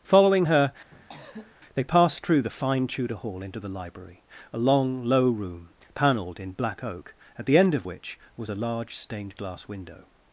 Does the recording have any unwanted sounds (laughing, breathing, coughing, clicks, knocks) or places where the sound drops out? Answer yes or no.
yes